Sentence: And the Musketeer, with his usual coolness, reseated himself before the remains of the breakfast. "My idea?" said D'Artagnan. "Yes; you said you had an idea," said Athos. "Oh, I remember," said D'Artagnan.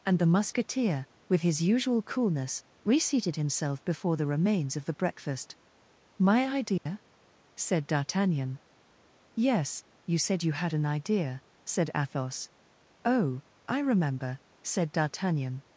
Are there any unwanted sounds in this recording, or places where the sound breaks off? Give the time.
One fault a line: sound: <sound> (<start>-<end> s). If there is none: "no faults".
sound: dropout (6.8-6.9 s)